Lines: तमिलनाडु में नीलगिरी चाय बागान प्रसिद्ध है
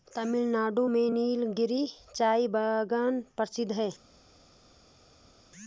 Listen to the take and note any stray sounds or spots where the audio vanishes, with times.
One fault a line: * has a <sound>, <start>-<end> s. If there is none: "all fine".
all fine